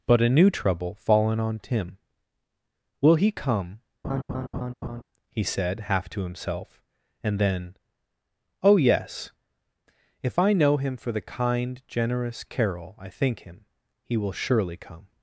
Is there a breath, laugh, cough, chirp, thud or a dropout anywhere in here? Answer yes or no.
yes